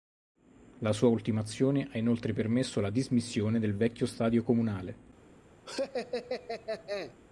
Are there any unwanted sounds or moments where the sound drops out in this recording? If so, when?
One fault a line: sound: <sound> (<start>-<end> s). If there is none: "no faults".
sound: laugh (5.7-7.1 s)